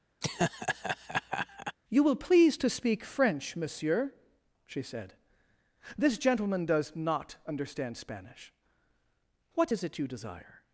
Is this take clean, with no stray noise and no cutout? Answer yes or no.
no